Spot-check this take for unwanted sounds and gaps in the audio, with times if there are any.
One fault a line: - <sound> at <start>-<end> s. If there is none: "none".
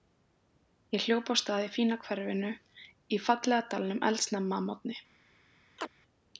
- chirp at 5.8-5.9 s